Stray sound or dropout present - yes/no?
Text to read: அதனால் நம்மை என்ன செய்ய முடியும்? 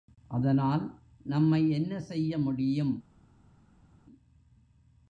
no